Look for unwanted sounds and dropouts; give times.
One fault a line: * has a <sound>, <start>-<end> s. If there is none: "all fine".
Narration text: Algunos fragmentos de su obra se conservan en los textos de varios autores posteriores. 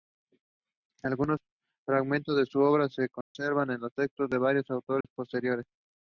* has a dropout, 3.2-3.3 s
* has a dropout, 5.0-5.0 s